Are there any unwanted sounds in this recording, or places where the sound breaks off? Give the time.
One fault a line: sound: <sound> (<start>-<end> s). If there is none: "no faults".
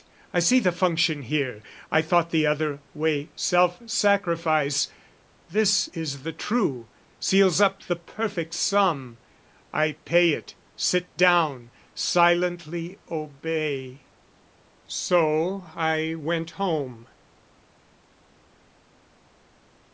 no faults